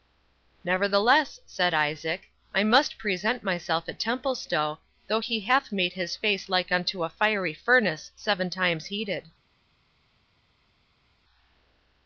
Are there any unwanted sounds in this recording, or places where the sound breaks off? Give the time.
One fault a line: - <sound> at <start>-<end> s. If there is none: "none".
none